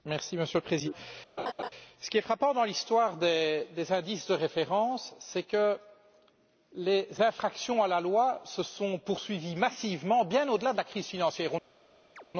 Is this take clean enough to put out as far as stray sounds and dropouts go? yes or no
no